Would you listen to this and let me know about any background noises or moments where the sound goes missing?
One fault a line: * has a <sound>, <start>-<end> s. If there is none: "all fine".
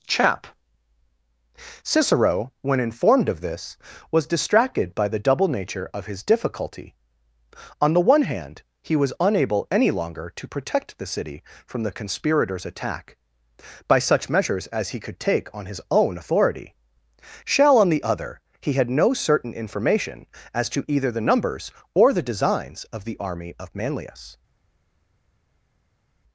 all fine